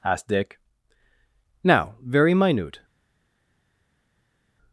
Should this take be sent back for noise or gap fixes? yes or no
no